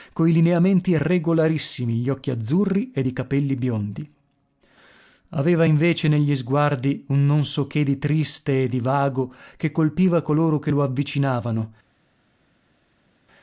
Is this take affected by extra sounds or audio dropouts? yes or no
no